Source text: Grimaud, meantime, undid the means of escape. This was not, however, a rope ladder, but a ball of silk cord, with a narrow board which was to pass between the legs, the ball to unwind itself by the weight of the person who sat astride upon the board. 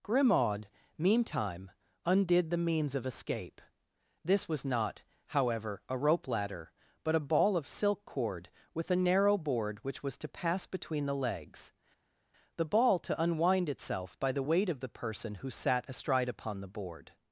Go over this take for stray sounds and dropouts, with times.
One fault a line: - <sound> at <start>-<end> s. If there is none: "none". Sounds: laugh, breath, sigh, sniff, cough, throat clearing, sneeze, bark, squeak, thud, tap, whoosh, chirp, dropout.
none